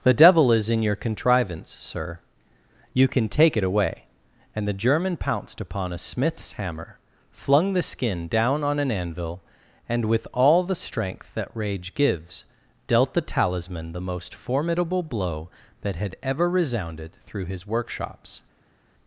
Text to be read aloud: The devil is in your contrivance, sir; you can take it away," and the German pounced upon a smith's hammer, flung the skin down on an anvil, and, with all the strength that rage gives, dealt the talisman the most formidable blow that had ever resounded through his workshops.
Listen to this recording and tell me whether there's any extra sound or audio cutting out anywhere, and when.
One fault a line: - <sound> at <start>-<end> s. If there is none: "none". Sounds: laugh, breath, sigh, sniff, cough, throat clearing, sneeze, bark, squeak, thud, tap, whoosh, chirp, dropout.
none